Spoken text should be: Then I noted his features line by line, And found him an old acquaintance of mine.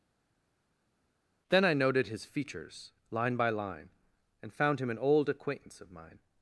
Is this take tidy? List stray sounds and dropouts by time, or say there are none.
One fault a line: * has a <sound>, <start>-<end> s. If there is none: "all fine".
all fine